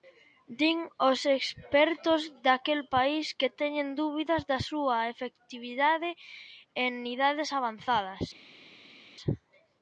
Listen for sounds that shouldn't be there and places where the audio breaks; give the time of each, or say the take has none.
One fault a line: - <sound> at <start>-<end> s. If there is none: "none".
none